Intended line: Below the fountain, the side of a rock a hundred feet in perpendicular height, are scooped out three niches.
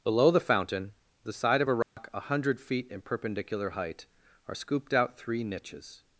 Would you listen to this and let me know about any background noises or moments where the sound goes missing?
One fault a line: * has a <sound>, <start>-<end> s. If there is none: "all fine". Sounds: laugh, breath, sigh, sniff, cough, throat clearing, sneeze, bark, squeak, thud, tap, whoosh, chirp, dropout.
* has a dropout, 1.8-2.0 s